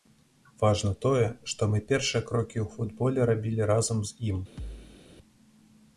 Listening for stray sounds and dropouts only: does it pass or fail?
fail